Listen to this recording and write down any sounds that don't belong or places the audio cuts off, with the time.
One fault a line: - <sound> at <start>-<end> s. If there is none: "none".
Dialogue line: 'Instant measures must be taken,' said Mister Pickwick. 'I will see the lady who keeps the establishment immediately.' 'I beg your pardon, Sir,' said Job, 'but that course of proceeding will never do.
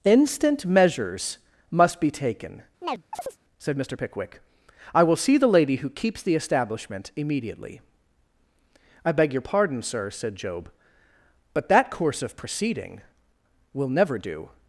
- chirp at 2.8-3.4 s